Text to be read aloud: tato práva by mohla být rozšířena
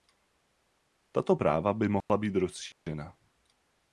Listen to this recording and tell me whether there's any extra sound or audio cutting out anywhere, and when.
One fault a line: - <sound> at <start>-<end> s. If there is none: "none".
- dropout at 2.0-2.1 s
- dropout at 2.7-2.9 s